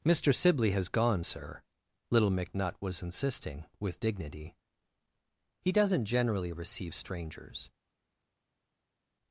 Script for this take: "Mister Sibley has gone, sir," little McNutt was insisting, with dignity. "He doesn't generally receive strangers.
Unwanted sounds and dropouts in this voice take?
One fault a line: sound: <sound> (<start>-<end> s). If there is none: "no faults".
no faults